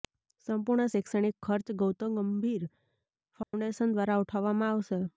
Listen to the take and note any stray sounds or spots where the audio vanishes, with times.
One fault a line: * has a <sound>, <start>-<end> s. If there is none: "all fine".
* has a dropout, 3.4-3.5 s